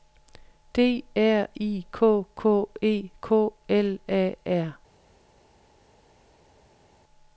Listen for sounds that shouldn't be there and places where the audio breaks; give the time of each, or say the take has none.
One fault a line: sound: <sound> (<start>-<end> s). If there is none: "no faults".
no faults